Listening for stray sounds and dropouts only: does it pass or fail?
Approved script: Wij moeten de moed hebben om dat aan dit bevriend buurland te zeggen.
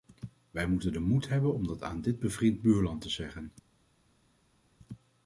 pass